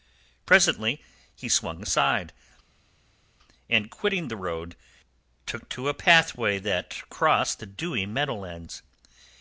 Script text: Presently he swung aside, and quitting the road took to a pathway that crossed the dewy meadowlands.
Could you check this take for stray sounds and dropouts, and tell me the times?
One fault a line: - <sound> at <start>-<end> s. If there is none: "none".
none